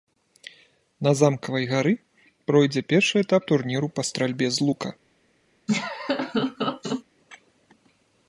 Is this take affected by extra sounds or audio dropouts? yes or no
yes